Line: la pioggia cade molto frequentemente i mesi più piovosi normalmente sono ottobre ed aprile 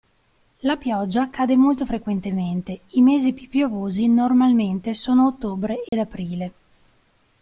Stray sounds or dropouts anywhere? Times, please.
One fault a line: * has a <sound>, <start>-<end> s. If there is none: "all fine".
* has a dropout, 5.9-5.9 s